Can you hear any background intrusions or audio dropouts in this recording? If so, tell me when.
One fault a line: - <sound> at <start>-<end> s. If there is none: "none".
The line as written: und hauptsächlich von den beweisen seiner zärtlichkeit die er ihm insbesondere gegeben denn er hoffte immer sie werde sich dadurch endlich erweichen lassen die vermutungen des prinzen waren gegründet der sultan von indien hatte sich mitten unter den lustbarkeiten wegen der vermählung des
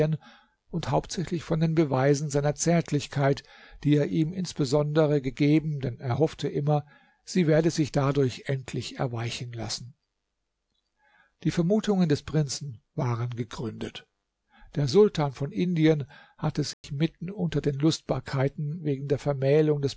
- dropout at 16.7-16.8 s